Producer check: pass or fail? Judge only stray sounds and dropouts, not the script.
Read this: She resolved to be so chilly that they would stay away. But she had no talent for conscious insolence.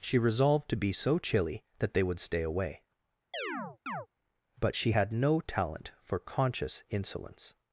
fail